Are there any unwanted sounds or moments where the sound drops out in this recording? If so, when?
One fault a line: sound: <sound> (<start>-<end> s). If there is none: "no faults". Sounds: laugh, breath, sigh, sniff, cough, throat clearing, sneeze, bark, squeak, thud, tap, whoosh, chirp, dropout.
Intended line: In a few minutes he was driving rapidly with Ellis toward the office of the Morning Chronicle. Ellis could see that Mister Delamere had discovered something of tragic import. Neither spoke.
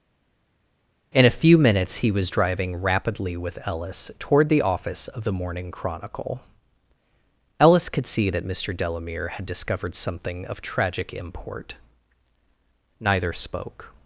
no faults